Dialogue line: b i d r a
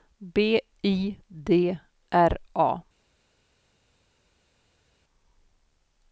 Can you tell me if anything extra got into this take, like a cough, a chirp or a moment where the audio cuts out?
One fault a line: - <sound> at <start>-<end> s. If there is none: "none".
none